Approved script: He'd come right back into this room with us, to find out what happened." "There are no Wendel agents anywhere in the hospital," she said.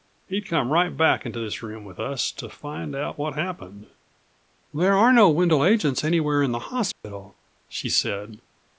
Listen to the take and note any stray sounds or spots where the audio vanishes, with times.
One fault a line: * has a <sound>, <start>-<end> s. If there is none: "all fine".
* has a dropout, 6.9-7.0 s